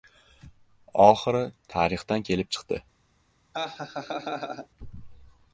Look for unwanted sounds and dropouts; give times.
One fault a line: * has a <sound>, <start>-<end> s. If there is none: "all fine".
* has a laugh, 3.5-4.7 s